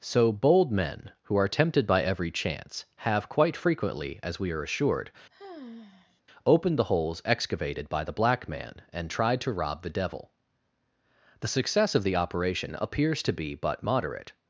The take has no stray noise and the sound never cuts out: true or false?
false